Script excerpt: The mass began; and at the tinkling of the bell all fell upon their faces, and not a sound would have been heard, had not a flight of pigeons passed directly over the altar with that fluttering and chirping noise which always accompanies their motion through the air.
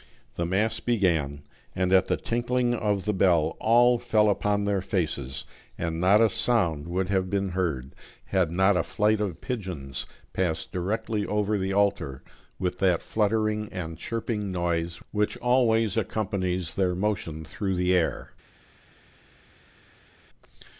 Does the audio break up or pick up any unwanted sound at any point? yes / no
no